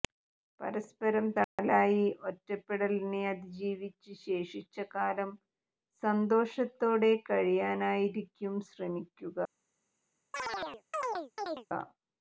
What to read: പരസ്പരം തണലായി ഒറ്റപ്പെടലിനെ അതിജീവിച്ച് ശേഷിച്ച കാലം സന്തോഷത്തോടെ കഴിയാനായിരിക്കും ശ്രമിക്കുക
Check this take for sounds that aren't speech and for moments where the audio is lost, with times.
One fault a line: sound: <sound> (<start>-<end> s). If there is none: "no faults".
sound: dropout (1.4-1.6 s)
sound: chirp (10.3-11.7 s)